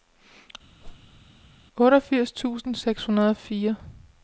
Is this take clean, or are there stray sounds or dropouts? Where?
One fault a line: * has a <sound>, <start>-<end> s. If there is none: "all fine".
* has a whoosh, 0.8-1.2 s